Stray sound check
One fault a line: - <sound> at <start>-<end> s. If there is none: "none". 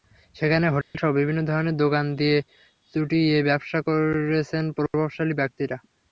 - dropout at 0.8-0.9 s